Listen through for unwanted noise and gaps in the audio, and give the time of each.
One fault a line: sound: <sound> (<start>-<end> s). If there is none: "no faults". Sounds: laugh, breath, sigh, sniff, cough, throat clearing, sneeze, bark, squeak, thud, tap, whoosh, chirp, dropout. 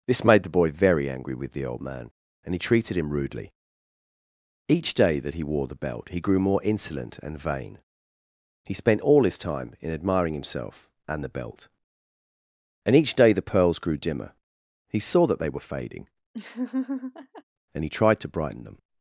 sound: laugh (16.3-17.4 s)